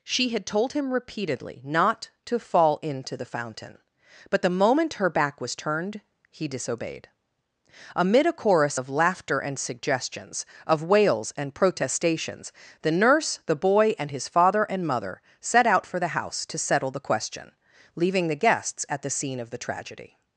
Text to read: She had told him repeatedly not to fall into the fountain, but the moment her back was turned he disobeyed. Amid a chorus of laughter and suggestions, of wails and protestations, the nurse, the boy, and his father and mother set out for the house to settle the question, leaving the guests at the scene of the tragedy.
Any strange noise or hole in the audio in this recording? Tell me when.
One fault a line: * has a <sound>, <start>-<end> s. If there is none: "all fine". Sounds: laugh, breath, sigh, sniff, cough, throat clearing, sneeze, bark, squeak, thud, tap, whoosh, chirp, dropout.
all fine